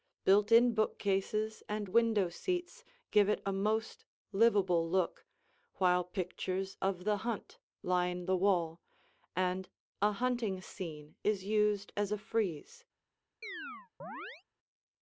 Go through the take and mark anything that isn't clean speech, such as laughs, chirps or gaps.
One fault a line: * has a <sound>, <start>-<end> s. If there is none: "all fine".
* has a chirp, 13.4-14.4 s